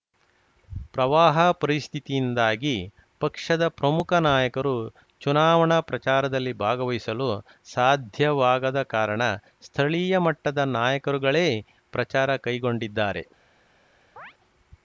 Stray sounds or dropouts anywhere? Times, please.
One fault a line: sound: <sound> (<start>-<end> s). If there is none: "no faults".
sound: chirp (14.2-14.3 s)